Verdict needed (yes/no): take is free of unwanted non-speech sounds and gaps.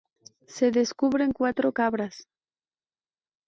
yes